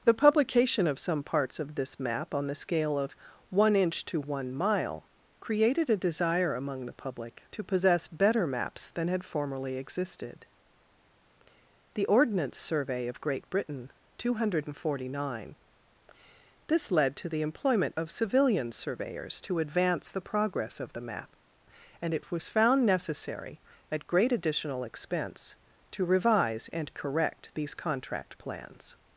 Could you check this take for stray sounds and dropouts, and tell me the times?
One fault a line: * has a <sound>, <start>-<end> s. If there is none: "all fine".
all fine